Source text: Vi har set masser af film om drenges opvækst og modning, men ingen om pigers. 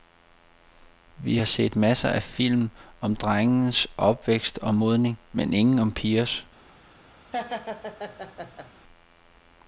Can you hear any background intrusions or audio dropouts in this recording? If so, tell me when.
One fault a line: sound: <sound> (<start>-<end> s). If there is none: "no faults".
sound: laugh (7.3-8.7 s)